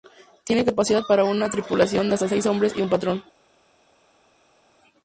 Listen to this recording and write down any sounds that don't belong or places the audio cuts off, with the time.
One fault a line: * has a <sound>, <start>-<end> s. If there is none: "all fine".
all fine